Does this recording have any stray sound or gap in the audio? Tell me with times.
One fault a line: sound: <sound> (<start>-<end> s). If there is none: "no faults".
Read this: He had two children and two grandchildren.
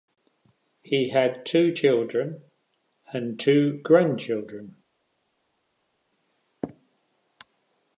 no faults